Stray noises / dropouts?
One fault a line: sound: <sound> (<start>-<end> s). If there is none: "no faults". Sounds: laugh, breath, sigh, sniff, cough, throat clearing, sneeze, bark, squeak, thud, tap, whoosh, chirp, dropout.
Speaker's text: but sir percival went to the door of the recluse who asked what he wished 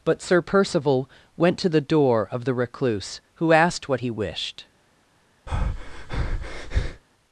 sound: breath (5.5-7.0 s)